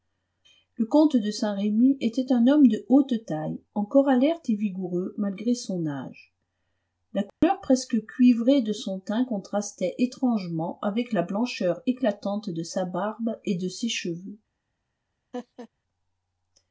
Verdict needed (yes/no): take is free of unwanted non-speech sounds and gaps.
no